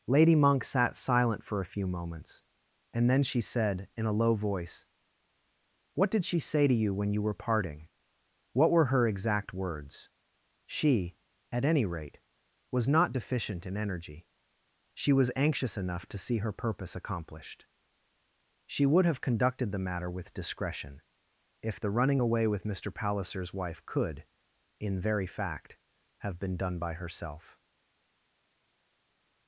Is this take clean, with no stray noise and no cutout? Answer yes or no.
yes